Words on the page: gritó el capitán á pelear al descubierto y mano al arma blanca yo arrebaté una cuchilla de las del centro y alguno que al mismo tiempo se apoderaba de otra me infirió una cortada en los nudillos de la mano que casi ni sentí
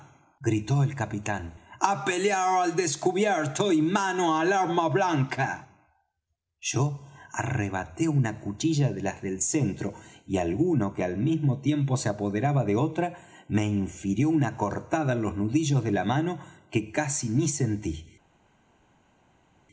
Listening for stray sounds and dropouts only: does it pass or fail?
pass